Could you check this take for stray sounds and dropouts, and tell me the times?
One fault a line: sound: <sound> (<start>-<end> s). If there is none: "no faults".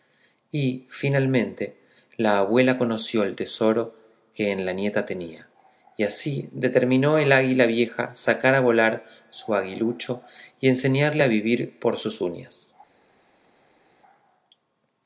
no faults